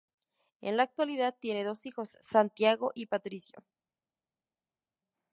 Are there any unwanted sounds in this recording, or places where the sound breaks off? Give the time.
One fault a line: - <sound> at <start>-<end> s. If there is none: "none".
none